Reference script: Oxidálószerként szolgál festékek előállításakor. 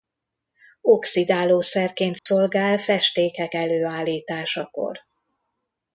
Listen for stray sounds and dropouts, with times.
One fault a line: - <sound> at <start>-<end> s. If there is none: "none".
- dropout at 2.2-2.3 s